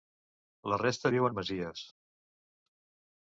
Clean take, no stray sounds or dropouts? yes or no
yes